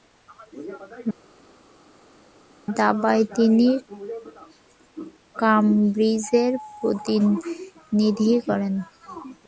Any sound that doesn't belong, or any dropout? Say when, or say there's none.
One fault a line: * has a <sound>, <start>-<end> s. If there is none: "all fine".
all fine